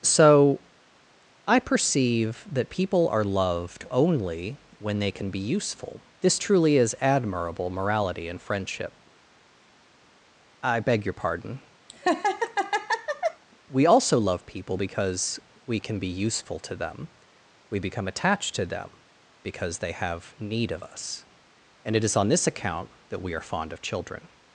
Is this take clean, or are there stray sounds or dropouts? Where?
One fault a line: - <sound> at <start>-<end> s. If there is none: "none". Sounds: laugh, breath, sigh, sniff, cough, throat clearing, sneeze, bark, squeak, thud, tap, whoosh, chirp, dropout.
- laugh at 11.9-13.4 s